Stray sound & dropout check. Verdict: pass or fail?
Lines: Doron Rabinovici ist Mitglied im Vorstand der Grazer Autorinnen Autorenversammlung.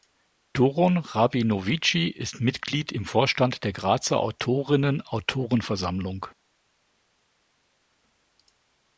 pass